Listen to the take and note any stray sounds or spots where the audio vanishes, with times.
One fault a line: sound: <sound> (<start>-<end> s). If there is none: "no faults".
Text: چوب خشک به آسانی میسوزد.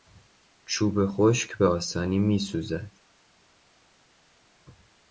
no faults